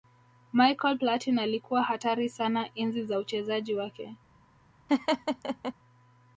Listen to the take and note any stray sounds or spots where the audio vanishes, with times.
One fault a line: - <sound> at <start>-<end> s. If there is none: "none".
- laugh at 4.9-5.7 s